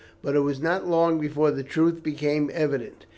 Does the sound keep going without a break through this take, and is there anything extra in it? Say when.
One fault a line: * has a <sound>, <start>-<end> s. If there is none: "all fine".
all fine